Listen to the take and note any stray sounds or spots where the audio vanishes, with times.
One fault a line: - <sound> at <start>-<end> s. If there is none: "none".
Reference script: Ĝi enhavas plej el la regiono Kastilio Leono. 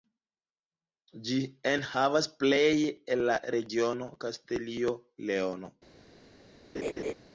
- laugh at 6.7-7.1 s